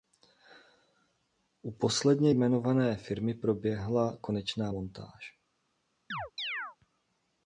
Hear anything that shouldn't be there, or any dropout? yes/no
yes